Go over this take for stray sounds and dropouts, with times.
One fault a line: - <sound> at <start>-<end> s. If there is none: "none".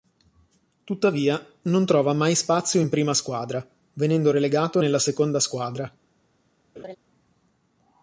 - laugh at 6.8-7.0 s